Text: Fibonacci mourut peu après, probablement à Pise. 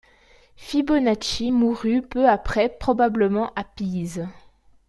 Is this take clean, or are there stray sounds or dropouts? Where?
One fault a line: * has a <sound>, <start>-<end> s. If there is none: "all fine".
all fine